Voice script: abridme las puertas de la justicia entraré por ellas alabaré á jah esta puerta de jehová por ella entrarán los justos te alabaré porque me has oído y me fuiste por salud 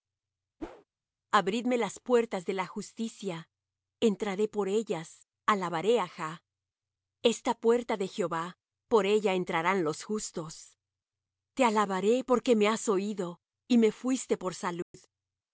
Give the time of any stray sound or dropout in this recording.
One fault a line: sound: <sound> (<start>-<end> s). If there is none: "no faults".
sound: whoosh (0.6-0.8 s)
sound: dropout (14.8-14.9 s)